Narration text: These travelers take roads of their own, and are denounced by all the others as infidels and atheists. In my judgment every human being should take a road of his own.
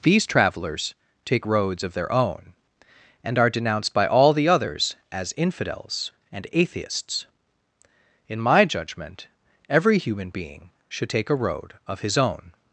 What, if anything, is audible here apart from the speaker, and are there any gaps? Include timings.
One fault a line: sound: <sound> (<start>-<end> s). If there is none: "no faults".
no faults